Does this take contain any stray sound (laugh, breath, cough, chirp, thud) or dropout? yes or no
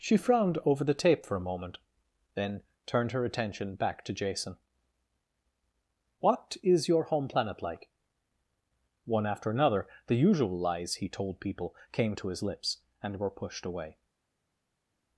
no